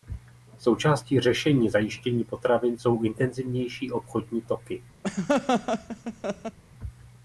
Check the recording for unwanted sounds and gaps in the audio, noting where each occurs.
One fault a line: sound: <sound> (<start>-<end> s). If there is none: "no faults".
sound: laugh (5.0-6.6 s)